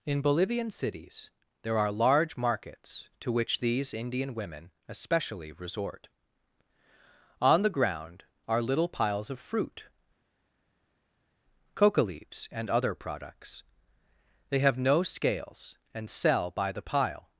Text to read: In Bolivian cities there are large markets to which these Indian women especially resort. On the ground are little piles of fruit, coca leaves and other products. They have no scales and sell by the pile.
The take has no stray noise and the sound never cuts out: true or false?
true